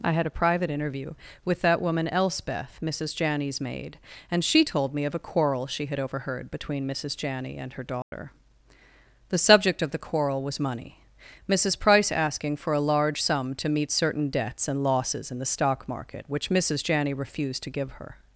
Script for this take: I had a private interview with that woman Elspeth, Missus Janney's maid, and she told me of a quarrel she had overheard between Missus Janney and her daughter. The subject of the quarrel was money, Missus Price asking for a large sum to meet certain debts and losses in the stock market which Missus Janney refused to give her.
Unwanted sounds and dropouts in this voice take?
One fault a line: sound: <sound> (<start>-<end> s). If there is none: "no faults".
sound: dropout (8.0-8.1 s)